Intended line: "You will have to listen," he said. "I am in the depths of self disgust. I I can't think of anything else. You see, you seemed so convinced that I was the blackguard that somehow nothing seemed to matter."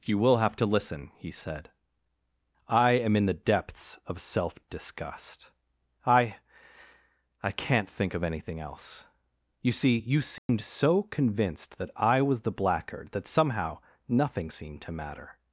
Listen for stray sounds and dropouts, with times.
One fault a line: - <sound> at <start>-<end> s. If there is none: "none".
- dropout at 10.4-10.5 s